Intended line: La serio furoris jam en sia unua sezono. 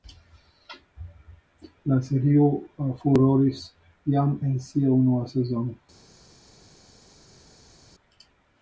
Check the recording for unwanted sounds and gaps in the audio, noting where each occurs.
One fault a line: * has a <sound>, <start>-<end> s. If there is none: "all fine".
all fine